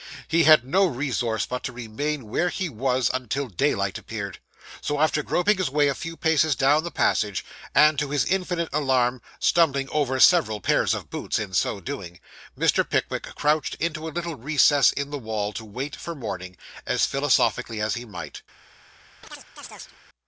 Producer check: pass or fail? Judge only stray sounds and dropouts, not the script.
fail